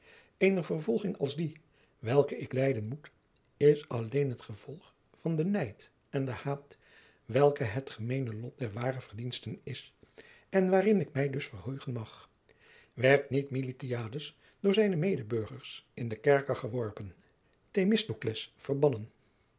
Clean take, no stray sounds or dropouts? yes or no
yes